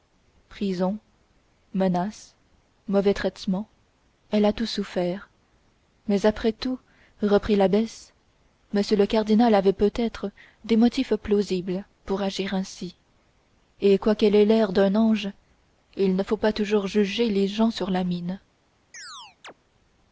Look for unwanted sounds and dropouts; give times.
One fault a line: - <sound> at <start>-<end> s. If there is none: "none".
- chirp at 18.9-19.5 s